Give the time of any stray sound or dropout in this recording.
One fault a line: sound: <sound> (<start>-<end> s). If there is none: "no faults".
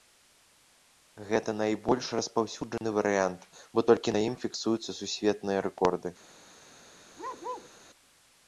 sound: dropout (2.8-2.8 s)
sound: bark (7.2-7.7 s)